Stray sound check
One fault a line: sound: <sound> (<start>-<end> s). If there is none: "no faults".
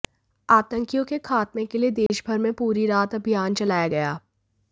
sound: dropout (2.1-2.1 s)